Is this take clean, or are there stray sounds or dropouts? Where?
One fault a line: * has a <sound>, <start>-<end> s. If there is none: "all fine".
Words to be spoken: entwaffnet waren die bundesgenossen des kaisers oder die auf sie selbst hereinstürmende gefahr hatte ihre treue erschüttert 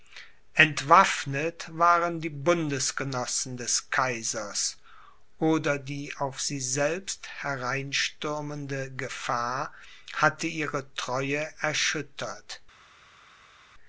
all fine